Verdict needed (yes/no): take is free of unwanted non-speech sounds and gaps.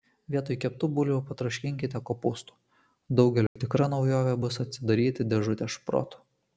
no